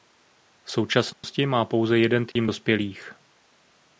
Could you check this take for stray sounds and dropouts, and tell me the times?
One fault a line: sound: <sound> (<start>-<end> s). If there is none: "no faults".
sound: dropout (1.1-1.2 s)
sound: dropout (2.3-2.4 s)